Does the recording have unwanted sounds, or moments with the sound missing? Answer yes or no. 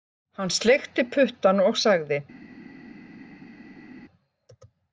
no